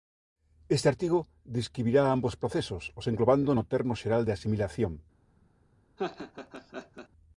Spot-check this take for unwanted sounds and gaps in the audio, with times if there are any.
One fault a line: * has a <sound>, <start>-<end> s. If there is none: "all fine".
* has a laugh, 6.0-7.1 s